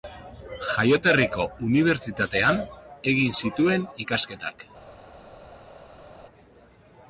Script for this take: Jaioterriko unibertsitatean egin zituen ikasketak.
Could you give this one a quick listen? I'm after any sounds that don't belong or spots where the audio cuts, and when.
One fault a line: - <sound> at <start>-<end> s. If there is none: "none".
none